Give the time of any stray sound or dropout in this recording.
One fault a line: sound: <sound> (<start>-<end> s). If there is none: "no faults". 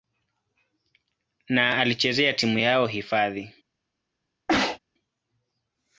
sound: sneeze (4.5-4.8 s)